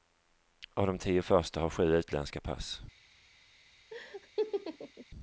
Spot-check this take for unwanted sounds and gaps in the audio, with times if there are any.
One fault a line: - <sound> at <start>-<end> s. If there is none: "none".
- laugh at 3.9-5.1 s